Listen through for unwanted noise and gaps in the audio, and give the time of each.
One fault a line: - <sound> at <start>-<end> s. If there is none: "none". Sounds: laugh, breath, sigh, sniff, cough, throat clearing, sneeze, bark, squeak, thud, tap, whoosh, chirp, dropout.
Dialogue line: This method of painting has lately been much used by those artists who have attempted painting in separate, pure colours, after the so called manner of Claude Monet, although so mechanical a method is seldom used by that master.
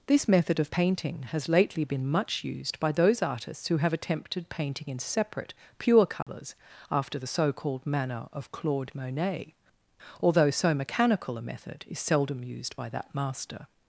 - dropout at 6.2-6.3 s